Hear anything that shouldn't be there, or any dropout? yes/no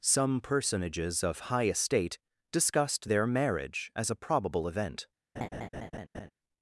yes